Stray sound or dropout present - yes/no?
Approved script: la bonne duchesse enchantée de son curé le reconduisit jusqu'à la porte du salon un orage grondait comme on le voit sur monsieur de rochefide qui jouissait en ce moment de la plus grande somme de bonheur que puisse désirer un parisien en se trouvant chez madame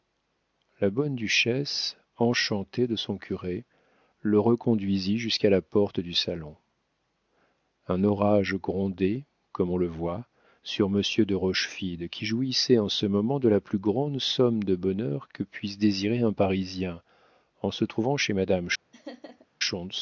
yes